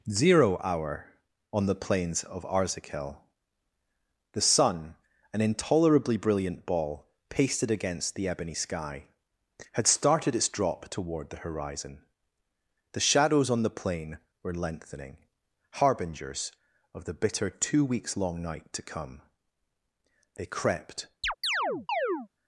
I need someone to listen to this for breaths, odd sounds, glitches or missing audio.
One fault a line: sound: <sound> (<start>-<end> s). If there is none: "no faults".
sound: chirp (21.2-22.3 s)